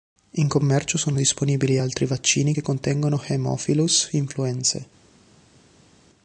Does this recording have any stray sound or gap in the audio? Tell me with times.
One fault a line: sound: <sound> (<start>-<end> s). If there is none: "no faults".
no faults